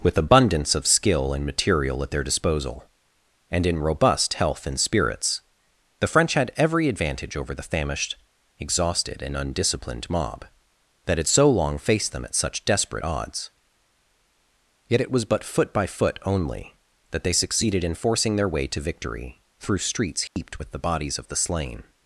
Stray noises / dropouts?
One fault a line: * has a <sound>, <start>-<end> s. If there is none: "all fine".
* has a dropout, 20.3-20.4 s